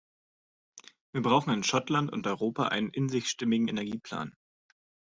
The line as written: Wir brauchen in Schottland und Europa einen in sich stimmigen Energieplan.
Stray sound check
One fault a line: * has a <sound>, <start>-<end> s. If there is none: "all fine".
all fine